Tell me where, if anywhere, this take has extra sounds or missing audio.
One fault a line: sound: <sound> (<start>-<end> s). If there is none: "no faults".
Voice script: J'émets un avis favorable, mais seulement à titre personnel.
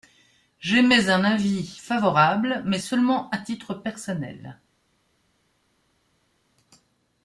no faults